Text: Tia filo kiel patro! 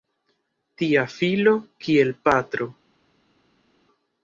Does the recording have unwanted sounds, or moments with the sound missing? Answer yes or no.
no